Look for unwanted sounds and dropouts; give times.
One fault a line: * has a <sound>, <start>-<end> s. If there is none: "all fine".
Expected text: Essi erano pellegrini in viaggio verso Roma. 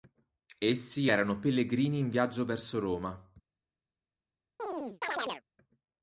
* has a chirp, 4.6-5.4 s